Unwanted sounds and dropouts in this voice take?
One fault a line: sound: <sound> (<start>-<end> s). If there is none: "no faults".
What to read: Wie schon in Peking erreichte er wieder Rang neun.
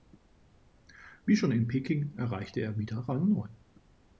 no faults